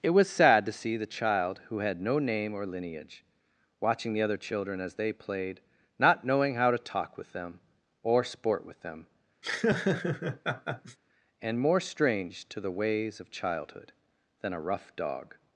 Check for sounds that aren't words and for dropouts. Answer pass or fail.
fail